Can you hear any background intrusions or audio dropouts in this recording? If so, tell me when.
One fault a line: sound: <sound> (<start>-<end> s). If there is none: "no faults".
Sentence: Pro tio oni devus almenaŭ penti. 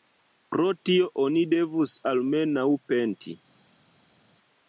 no faults